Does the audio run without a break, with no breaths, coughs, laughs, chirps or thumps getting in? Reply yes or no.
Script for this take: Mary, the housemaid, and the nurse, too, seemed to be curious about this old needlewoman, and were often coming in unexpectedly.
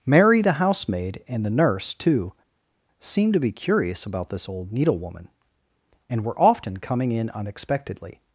yes